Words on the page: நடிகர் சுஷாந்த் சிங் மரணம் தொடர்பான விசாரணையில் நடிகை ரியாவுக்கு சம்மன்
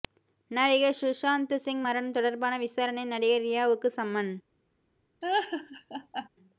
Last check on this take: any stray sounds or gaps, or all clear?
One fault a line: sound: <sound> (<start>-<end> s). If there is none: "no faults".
sound: laugh (5.2-6.3 s)